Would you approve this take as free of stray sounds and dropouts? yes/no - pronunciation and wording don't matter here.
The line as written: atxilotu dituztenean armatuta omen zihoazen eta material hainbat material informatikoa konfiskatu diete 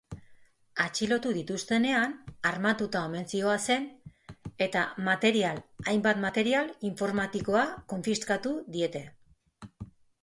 yes